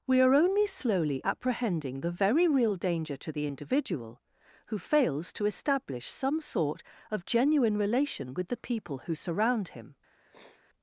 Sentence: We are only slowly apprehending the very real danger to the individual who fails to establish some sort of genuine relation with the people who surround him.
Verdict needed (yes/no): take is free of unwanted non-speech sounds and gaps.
no